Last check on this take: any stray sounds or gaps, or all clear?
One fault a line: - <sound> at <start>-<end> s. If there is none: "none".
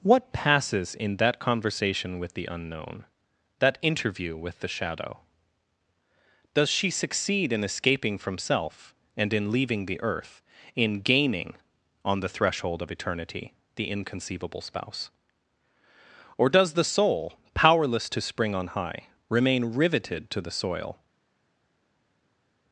none